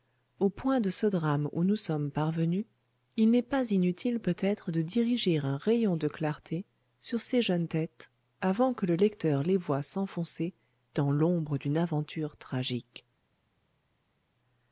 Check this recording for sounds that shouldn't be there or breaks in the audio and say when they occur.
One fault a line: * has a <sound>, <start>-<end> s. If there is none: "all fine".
all fine